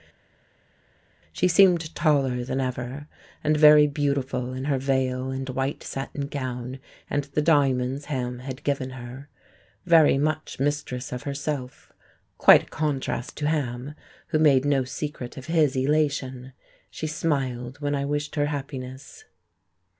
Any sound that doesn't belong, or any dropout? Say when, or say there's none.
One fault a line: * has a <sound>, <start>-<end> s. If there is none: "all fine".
all fine